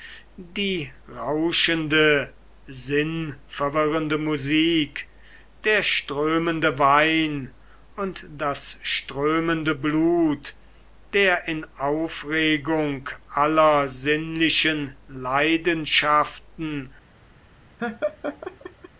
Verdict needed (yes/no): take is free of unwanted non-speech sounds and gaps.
no